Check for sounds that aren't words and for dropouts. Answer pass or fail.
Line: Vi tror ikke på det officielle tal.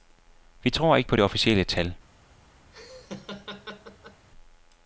fail